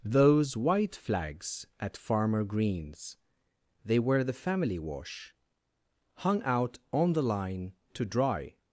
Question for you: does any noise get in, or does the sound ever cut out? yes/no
no